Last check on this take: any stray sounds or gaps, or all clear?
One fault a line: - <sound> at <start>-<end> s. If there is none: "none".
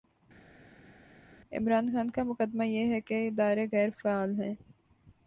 none